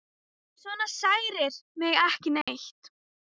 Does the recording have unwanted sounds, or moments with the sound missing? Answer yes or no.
yes